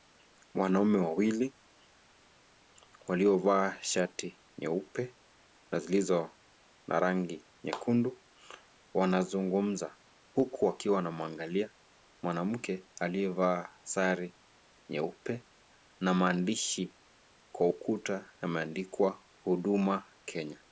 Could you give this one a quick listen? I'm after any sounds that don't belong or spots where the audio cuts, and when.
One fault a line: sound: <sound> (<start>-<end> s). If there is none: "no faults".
no faults